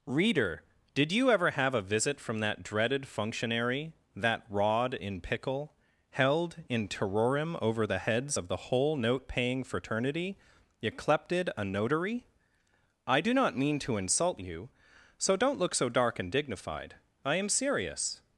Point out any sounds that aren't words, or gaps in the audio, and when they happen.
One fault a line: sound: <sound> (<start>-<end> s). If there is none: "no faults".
no faults